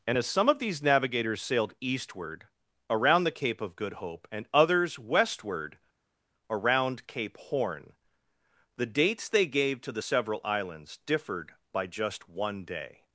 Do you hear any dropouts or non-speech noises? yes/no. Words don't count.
no